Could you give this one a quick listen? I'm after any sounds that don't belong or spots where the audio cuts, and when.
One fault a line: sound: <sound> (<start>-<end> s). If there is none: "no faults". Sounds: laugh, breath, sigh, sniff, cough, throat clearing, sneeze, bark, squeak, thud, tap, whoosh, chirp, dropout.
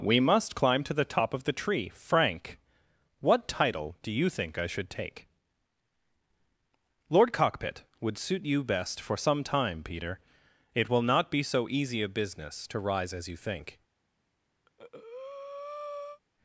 sound: breath (14.7-16.2 s)